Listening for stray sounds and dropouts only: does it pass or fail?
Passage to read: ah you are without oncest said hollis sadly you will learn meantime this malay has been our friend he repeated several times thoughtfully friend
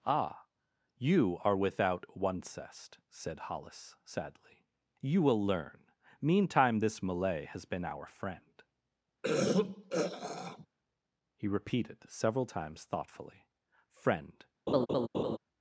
fail